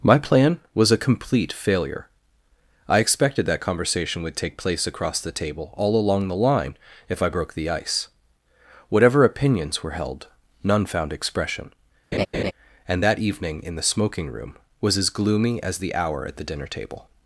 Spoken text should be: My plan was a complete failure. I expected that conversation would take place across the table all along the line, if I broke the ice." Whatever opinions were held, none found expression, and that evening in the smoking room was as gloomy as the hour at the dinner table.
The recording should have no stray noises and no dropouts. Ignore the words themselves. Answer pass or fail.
fail